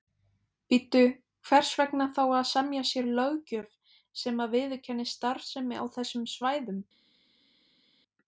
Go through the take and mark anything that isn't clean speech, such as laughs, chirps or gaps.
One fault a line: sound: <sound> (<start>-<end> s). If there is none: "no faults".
no faults